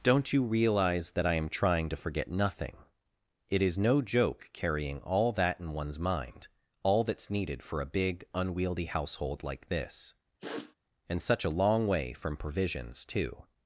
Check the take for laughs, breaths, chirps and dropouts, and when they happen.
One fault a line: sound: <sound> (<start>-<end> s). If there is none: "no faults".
sound: sniff (10.4-10.8 s)